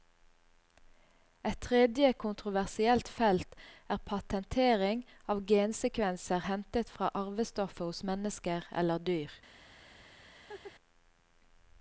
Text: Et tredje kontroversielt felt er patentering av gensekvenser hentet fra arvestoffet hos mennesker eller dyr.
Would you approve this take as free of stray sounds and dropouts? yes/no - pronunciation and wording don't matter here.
no